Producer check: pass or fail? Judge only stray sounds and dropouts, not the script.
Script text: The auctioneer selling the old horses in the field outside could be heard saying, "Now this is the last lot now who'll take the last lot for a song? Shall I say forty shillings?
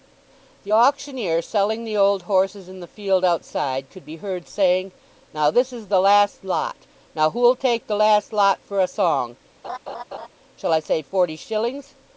fail